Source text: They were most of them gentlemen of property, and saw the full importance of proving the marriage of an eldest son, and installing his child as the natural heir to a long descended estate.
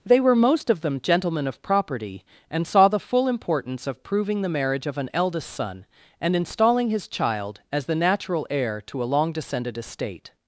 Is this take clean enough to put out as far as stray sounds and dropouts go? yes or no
yes